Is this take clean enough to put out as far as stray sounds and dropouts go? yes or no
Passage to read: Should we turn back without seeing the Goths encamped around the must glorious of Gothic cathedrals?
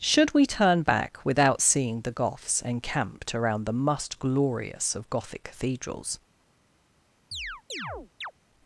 no